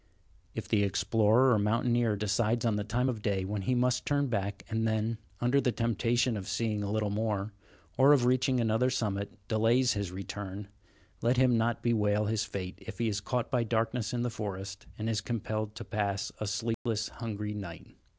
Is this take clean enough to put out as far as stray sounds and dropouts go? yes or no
no